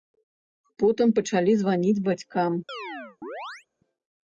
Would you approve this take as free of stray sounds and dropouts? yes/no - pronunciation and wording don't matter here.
no